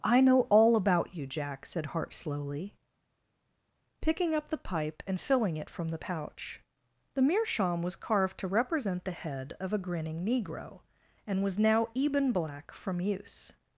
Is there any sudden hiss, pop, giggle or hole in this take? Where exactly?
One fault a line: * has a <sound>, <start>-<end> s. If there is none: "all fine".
all fine